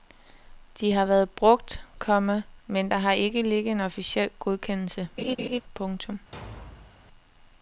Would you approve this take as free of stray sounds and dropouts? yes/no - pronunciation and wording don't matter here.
no